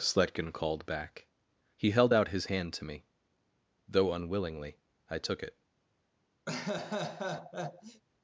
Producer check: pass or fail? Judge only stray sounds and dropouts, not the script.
fail